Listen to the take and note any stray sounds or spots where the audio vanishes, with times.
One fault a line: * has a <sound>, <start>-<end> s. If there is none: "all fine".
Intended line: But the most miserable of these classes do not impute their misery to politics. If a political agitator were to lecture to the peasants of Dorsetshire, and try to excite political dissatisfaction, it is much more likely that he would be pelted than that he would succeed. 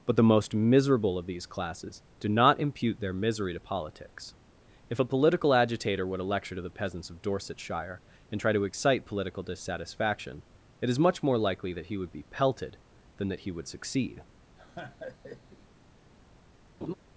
* has a laugh, 14.6-15.7 s
* has a laugh, 16.8-16.9 s